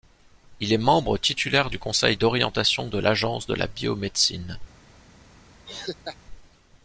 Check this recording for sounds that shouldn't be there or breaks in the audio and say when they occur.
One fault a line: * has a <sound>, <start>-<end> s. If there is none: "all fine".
* has a laugh, 5.7-6.2 s